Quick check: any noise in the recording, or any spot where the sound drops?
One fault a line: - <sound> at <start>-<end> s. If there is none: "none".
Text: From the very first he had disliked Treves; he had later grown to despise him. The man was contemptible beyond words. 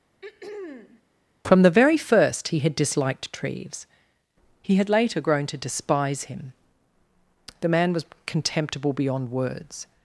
- throat clearing at 0.2-1.0 s